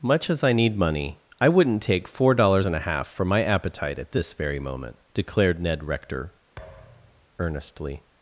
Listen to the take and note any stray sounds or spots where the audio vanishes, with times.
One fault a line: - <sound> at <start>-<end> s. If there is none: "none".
- thud at 6.6-7.3 s